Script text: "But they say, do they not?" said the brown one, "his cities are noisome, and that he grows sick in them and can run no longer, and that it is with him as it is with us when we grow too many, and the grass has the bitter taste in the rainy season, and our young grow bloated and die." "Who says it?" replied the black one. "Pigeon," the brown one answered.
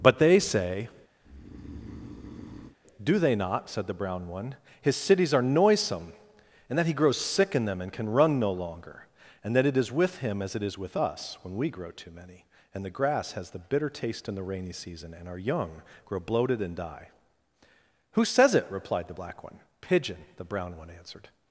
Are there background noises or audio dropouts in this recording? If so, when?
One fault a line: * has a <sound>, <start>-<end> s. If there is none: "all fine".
* has a breath, 1.2-2.8 s